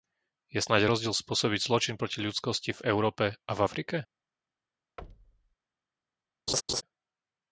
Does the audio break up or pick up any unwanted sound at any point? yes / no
yes